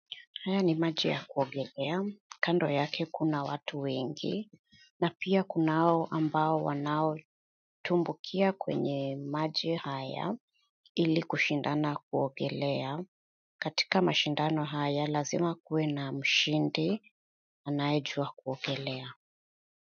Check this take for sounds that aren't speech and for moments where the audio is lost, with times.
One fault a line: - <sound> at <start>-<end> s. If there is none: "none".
none